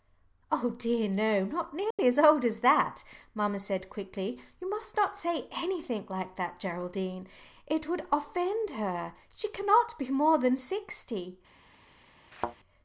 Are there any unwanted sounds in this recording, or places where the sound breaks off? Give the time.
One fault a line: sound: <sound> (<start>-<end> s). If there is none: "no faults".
sound: dropout (1.9-2.0 s)
sound: thud (12.3-12.6 s)